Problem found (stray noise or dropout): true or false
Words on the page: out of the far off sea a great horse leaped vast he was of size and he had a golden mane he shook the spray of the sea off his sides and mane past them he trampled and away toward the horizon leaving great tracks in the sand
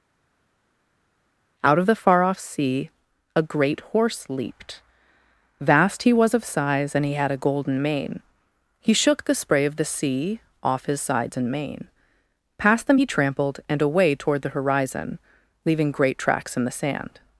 false